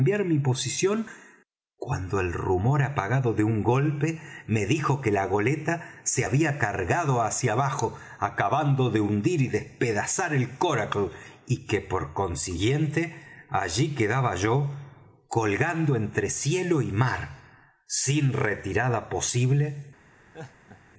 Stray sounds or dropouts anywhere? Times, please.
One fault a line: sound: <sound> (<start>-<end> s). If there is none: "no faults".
sound: laugh (20.3-20.8 s)